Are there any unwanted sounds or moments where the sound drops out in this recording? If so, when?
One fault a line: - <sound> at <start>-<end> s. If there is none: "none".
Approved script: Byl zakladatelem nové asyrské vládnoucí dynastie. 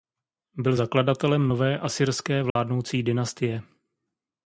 - dropout at 2.5-2.6 s